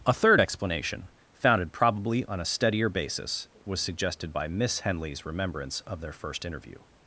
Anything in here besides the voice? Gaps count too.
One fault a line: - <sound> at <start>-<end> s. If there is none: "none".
none